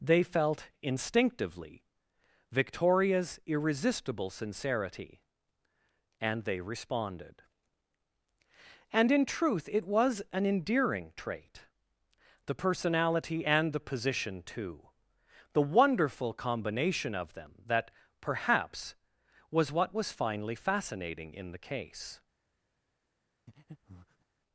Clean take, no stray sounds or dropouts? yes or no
no